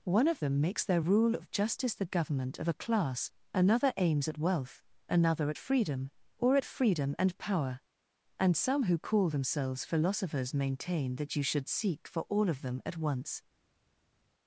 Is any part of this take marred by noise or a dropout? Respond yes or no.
no